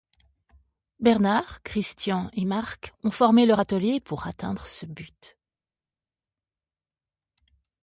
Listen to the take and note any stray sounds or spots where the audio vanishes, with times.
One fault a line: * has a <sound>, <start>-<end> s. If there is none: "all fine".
all fine